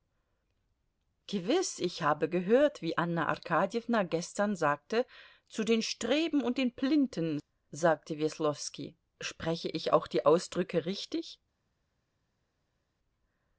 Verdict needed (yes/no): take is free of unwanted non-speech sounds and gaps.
yes